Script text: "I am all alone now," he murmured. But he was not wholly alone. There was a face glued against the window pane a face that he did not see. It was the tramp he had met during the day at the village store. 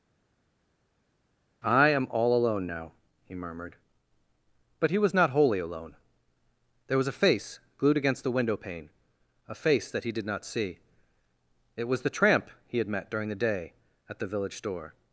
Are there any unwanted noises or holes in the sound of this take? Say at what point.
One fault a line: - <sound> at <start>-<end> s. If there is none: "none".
none